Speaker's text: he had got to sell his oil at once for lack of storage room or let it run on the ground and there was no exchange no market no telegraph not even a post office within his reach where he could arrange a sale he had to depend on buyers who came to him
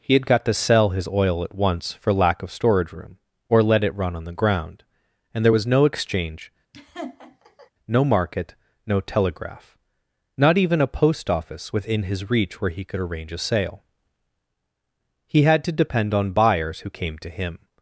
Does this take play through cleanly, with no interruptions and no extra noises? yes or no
no